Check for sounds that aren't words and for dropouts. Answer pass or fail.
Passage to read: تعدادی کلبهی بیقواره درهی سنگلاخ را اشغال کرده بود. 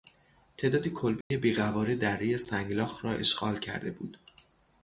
fail